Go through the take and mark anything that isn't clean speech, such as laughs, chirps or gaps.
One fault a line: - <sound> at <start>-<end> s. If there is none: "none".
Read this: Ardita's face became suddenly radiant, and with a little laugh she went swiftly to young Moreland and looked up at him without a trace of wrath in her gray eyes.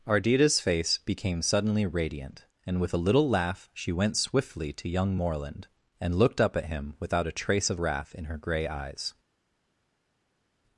none